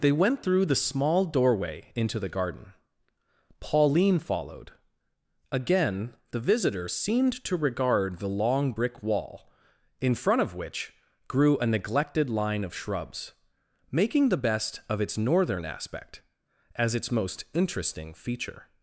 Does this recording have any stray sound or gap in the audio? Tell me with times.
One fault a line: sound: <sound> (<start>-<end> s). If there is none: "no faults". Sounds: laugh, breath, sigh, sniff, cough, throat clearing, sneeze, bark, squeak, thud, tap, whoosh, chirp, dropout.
no faults